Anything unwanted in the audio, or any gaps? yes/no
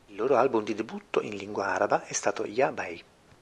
no